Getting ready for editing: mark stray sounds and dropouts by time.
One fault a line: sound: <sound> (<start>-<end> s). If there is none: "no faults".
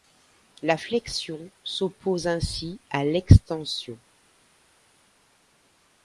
no faults